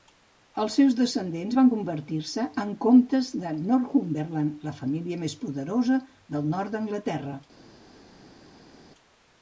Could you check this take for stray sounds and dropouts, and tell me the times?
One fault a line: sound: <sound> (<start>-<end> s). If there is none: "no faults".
no faults